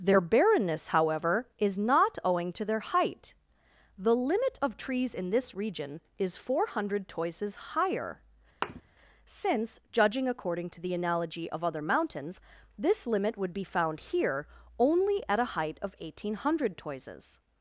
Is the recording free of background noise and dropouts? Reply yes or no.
no